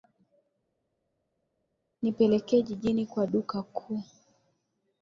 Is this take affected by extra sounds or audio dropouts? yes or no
no